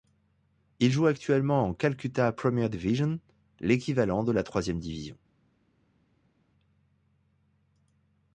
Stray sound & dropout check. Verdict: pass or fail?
pass